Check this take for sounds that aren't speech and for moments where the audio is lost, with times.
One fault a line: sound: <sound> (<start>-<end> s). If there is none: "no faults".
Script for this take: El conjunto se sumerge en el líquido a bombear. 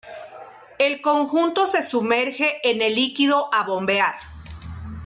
no faults